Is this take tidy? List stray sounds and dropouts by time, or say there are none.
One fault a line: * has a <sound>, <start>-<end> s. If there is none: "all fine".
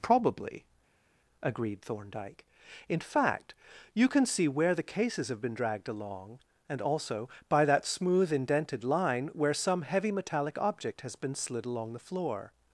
all fine